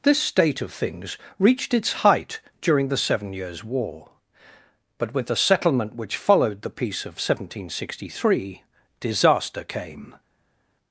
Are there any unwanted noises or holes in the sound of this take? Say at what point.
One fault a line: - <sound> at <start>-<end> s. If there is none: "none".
none